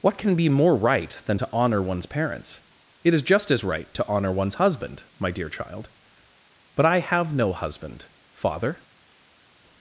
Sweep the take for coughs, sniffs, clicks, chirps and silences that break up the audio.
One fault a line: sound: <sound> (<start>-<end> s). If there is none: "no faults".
no faults